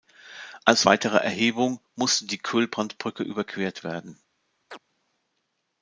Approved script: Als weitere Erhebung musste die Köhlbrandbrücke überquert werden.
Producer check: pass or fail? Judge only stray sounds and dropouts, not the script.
fail